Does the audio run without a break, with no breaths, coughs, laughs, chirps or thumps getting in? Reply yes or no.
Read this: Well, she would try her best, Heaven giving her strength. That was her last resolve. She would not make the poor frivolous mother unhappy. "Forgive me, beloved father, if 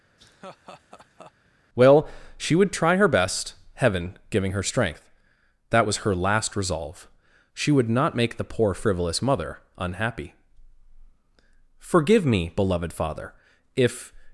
no